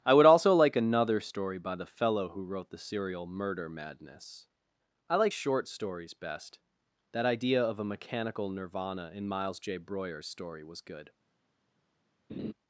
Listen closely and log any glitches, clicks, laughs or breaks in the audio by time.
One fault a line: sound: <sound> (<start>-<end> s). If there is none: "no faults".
sound: laugh (12.3-12.5 s)